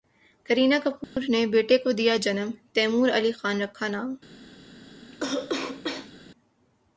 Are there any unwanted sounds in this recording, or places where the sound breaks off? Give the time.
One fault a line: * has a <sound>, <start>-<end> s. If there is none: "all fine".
* has a dropout, 1.0-1.2 s
* has a cough, 5.1-6.1 s